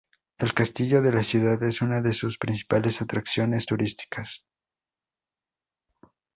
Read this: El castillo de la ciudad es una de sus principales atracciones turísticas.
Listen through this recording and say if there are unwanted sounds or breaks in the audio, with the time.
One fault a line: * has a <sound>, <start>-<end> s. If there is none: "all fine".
all fine